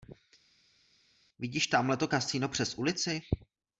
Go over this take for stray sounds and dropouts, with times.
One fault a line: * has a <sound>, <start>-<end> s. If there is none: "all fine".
all fine